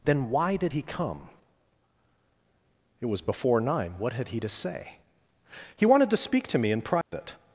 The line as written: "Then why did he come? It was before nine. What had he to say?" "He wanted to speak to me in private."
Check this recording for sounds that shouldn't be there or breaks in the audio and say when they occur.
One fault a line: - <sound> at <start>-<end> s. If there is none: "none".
- dropout at 7.0-7.1 s